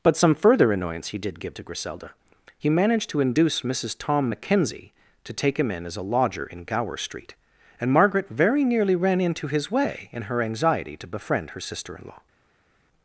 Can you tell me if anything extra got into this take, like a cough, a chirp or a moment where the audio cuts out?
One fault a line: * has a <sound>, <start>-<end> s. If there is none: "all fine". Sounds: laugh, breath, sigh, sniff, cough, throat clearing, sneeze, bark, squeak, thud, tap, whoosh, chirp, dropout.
all fine